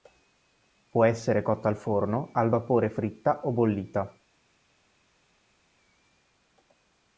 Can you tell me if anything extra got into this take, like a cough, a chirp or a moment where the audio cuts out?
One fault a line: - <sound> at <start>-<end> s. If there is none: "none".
none